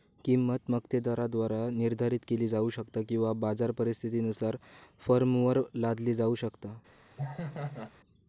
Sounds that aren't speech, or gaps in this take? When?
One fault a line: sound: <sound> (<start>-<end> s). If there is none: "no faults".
sound: laugh (7.2-7.9 s)